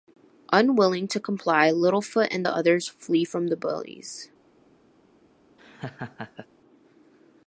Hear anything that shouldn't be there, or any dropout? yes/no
yes